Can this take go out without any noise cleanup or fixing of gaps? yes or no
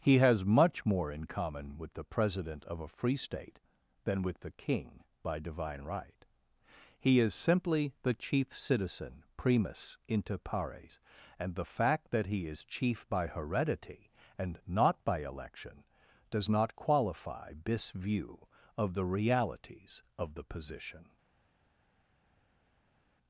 yes